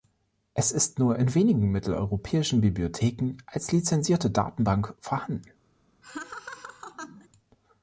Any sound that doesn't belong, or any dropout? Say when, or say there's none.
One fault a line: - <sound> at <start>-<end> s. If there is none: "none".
- laugh at 6.0-7.3 s